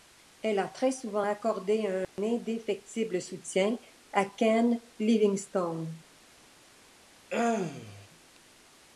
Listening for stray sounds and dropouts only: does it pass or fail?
fail